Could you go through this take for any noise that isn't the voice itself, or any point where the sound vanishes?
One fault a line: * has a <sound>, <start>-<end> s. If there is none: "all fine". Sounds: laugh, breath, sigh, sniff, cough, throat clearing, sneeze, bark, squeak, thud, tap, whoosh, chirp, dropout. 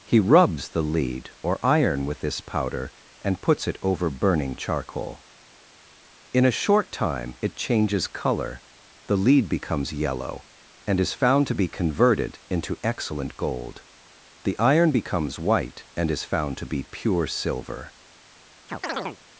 * has a chirp, 18.7-19.2 s